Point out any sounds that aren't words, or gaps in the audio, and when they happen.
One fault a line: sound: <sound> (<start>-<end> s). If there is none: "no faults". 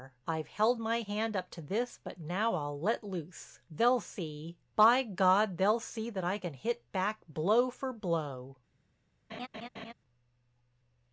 sound: laugh (9.3-9.9 s)